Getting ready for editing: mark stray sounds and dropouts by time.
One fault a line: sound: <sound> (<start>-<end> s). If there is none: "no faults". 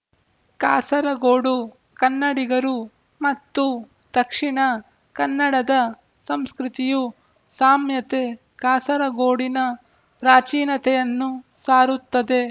no faults